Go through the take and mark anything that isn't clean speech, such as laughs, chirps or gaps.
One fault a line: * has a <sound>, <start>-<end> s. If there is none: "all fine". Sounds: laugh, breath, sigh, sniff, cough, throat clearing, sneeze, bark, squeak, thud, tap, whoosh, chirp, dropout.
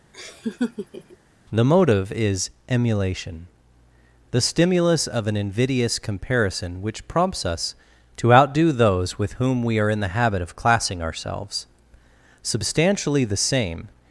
* has a laugh, 0.1-1.2 s